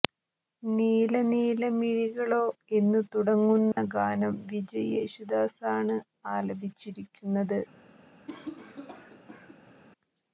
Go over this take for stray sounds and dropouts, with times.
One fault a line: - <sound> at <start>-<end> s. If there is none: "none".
- dropout at 3.7-3.8 s
- cough at 8.3-9.8 s